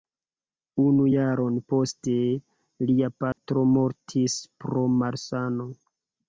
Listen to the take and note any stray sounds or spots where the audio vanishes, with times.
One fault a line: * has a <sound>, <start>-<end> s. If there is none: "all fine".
* has a dropout, 3.3-3.4 s